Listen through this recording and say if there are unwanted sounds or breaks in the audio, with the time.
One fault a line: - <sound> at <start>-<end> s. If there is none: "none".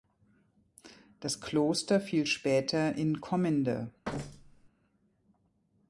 - thud at 4.0-4.7 s